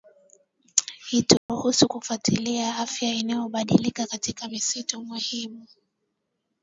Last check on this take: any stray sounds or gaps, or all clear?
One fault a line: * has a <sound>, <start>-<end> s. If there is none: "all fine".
* has a dropout, 1.4-1.5 s